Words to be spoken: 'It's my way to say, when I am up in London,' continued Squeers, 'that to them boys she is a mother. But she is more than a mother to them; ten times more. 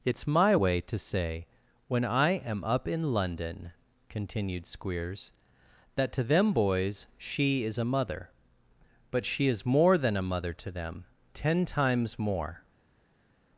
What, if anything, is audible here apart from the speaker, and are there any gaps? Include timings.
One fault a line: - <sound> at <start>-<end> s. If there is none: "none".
none